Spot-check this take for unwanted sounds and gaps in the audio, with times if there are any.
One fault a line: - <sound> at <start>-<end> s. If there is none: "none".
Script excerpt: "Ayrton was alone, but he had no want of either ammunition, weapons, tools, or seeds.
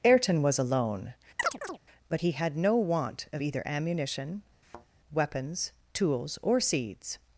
- chirp at 1.4-1.8 s
- thud at 4.6-4.9 s